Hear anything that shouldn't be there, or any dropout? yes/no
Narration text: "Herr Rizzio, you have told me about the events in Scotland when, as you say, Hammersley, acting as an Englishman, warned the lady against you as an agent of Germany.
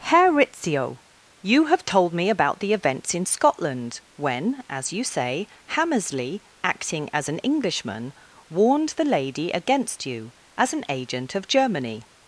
no